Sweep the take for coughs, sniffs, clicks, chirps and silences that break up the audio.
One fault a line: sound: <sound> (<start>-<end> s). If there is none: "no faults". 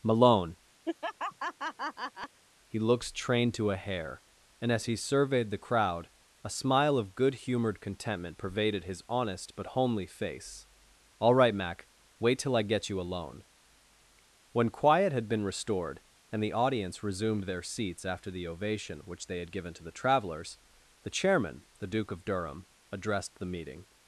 sound: laugh (0.8-2.4 s)